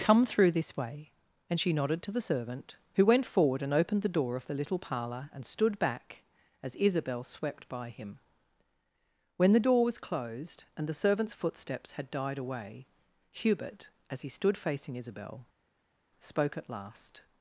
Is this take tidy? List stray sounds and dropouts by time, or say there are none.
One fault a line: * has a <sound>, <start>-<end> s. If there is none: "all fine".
all fine